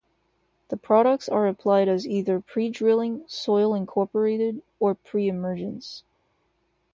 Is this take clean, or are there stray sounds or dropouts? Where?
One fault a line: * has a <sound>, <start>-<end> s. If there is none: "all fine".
all fine